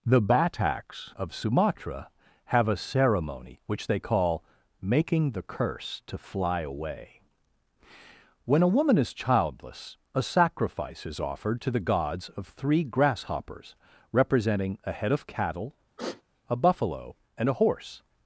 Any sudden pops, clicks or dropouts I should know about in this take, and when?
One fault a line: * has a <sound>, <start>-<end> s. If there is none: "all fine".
* has a sigh, 16.0-16.2 s